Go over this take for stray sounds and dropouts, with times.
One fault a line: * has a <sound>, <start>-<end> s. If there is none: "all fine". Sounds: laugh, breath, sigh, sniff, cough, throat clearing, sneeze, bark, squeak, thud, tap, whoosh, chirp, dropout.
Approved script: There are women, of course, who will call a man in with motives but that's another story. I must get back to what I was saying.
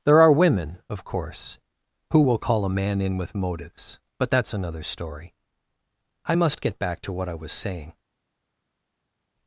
all fine